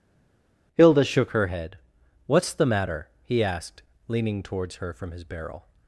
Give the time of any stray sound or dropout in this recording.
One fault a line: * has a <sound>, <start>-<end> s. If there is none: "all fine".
all fine